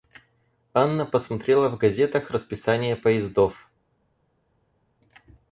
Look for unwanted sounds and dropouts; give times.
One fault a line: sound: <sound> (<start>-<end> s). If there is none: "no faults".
no faults